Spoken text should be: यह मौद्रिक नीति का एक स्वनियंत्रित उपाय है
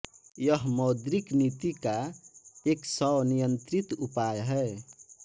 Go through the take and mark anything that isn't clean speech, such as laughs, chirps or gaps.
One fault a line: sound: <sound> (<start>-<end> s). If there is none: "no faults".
no faults